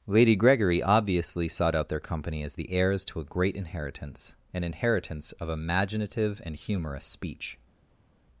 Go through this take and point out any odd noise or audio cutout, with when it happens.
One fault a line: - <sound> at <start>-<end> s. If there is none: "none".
none